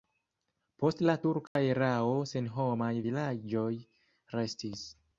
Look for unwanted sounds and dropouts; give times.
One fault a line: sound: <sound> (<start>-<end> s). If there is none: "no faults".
sound: dropout (1.5-1.6 s)